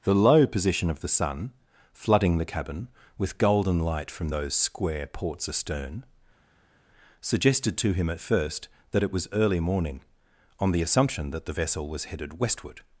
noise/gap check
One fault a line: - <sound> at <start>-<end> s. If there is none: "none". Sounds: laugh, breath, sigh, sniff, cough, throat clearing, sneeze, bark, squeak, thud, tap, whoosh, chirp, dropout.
none